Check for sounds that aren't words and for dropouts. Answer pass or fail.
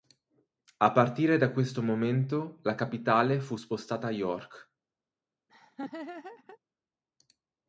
fail